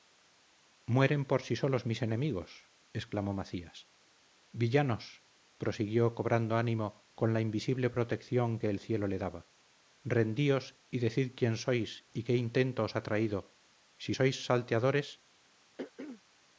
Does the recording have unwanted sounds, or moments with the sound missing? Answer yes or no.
yes